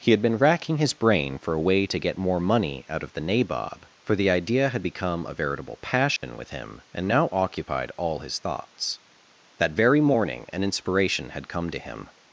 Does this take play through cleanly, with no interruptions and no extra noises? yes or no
no